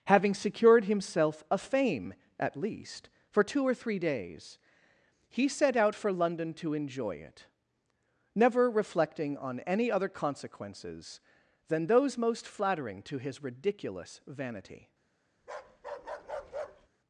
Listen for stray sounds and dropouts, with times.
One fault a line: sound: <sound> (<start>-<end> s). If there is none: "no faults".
sound: bark (15.4-16.9 s)